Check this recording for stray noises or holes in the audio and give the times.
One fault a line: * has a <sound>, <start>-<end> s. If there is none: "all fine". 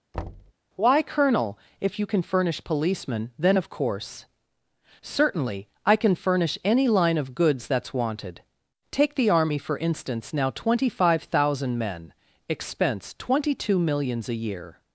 * has a thud, 0.1-0.5 s